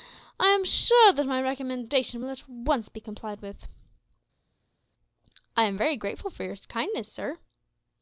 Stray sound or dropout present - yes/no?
no